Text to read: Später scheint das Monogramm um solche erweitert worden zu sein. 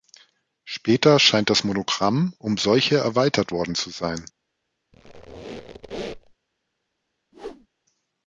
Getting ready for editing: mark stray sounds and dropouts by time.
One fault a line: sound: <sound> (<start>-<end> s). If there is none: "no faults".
sound: squeak (4.9-6.4 s)
sound: whoosh (7.3-7.7 s)